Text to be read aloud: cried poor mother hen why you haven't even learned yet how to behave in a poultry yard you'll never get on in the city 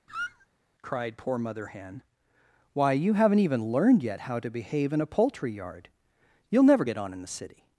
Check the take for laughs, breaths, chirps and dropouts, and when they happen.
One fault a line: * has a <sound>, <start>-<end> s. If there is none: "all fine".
* has a squeak, 0.1-0.5 s